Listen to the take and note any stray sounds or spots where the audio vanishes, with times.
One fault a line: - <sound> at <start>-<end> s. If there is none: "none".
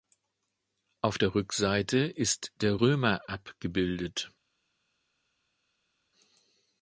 none